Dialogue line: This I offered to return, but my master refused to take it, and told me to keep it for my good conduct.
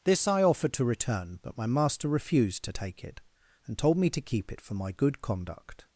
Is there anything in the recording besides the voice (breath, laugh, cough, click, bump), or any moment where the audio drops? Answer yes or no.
no